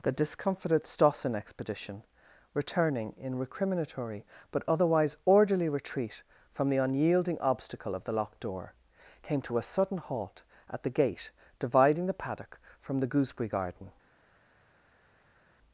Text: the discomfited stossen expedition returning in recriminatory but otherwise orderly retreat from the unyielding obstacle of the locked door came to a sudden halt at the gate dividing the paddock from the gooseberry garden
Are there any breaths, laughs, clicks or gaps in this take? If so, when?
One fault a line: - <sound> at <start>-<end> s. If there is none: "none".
none